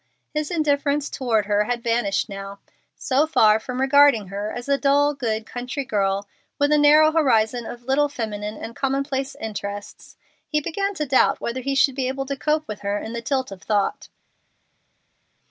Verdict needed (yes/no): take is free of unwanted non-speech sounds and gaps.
yes